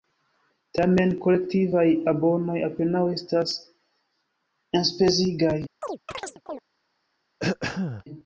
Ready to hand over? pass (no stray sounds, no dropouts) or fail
fail